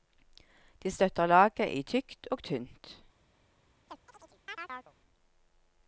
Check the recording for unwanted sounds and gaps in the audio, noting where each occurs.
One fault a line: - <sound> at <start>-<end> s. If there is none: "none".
- chirp at 3.9-4.9 s